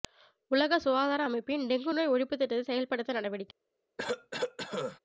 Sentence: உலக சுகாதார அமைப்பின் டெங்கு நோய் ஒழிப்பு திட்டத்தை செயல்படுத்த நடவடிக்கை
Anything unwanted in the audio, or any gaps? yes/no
yes